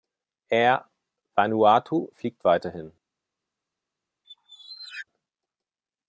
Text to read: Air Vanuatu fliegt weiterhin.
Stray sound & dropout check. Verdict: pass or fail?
fail